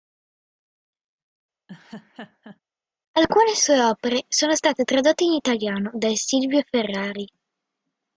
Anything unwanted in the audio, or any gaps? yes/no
yes